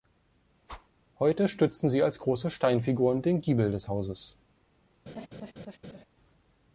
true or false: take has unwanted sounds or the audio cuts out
true